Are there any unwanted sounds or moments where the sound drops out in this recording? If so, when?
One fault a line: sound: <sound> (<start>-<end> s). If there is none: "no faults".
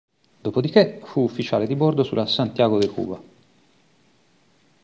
no faults